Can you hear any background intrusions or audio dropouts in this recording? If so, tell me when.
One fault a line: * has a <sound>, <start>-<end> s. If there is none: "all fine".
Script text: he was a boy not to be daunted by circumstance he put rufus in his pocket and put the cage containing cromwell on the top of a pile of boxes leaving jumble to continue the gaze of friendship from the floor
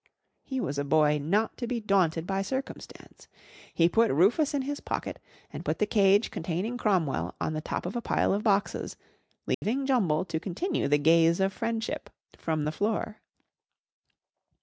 * has a dropout, 9.5-9.6 s